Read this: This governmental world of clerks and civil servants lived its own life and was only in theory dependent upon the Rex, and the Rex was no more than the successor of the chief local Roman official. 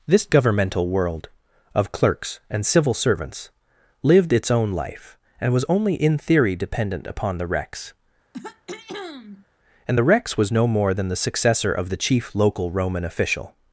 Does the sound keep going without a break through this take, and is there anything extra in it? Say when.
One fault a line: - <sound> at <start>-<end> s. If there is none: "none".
- throat clearing at 8.3-9.5 s